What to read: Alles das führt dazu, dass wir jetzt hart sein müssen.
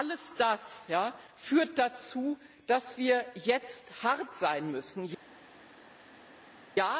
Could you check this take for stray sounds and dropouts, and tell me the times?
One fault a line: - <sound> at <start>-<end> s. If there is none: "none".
none